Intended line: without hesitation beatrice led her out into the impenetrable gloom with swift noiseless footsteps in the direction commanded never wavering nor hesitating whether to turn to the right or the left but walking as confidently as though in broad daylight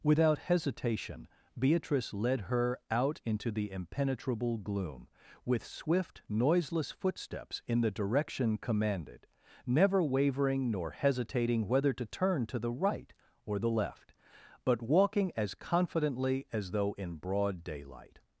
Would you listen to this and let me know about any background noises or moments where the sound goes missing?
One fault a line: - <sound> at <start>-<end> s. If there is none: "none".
none